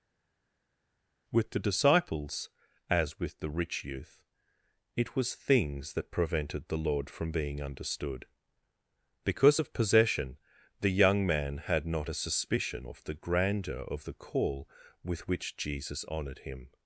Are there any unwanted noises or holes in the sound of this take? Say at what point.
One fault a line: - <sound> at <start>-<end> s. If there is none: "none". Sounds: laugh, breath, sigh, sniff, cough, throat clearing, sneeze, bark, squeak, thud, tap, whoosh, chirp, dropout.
none